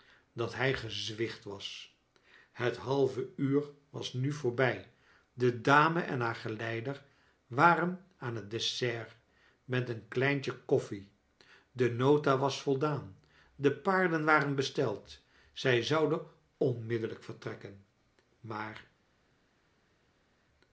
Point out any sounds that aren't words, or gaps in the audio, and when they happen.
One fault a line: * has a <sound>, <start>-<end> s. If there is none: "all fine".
all fine